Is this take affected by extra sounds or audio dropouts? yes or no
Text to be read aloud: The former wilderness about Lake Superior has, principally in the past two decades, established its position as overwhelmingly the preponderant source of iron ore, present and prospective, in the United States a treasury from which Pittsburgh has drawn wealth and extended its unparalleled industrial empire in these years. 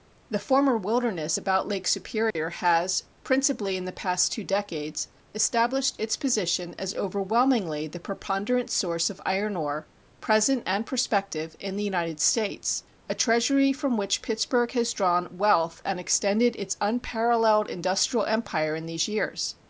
yes